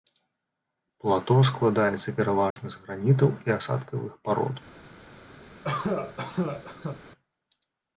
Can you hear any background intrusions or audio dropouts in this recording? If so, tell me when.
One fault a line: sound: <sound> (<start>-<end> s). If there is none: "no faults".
sound: dropout (2.5-2.6 s)
sound: cough (5.5-7.0 s)